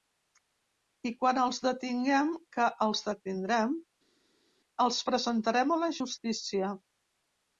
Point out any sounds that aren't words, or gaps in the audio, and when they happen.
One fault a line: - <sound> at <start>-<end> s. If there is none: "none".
none